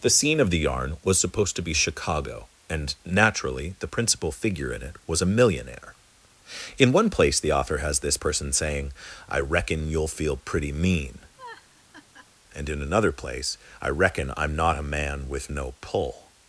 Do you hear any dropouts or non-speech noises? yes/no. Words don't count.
yes